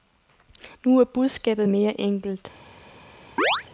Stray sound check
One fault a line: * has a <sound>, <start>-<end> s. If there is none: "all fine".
* has a chirp, 3.4-3.6 s